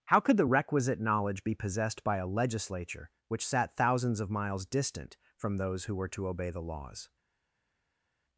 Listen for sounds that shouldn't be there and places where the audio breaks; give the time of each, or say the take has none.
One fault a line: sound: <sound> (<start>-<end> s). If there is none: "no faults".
no faults